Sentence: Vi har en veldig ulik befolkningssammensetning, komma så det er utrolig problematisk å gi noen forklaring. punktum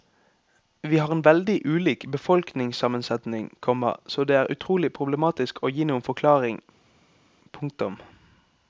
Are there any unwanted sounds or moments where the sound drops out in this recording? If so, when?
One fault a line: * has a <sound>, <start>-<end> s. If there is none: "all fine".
all fine